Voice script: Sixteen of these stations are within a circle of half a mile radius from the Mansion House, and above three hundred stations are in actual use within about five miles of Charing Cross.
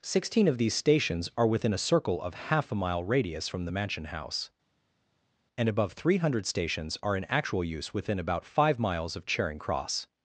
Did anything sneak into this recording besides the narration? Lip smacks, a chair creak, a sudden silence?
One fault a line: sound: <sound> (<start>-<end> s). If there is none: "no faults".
no faults